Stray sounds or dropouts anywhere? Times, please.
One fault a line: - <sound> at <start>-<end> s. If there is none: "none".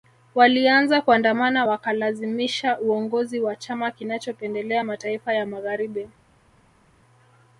none